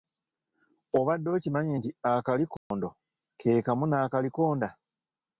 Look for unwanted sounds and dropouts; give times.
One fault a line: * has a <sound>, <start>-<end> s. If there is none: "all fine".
* has a dropout, 2.6-2.7 s